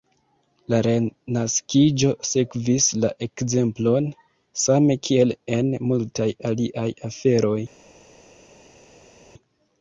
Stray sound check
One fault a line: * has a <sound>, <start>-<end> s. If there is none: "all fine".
all fine